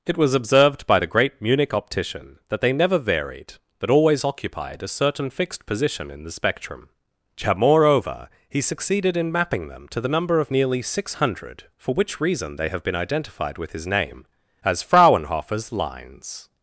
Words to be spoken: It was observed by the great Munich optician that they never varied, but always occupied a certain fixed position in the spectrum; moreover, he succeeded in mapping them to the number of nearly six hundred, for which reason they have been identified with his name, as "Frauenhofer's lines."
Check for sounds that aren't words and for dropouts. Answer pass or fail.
pass